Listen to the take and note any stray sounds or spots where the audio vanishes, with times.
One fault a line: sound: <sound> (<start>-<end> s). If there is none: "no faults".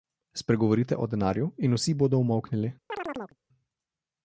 sound: chirp (2.9-3.4 s)